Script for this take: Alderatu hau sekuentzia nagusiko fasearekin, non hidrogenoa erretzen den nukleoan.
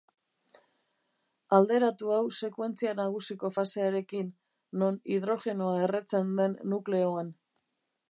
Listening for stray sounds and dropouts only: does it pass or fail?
pass